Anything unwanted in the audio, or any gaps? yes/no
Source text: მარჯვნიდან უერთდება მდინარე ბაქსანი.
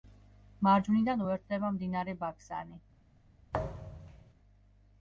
yes